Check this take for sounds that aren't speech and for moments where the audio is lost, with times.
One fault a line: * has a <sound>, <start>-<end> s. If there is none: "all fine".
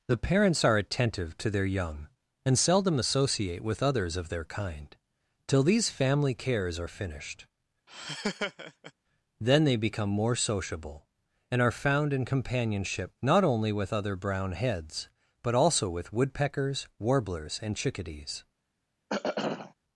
* has a laugh, 7.9-8.9 s
* has a throat clearing, 19.1-19.7 s